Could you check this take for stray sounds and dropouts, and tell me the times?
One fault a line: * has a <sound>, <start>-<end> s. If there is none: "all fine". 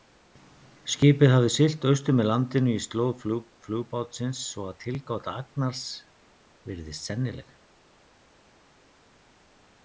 all fine